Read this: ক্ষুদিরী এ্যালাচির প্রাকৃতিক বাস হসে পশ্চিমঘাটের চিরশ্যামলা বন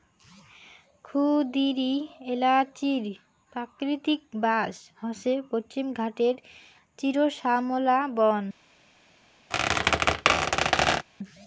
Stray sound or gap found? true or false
true